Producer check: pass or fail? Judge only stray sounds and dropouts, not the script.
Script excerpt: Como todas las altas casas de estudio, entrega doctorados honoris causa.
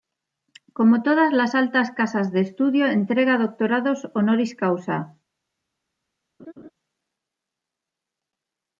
fail